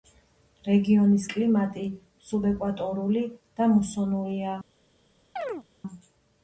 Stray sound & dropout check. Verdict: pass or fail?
fail